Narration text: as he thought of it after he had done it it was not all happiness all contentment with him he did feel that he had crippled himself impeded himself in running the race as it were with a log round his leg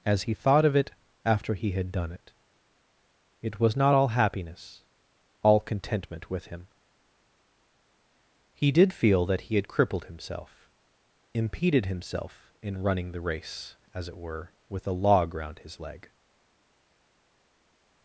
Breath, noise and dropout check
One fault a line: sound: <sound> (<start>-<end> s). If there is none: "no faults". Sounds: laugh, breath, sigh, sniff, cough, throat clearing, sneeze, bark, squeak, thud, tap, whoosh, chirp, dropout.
no faults